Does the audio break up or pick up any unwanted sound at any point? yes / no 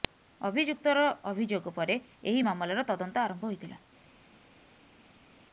no